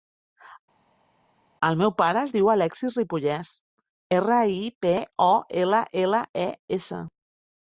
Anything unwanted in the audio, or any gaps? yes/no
no